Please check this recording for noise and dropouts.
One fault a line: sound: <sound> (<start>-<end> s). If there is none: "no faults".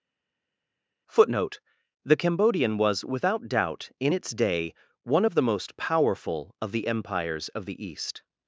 no faults